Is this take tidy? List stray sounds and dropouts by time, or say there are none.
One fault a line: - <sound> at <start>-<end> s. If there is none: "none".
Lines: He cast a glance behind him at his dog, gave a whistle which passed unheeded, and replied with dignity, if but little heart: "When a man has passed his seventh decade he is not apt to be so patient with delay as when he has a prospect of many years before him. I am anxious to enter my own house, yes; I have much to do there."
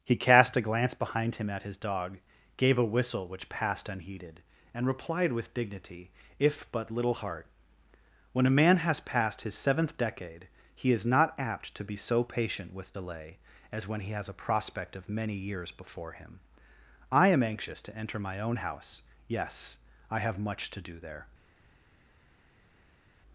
none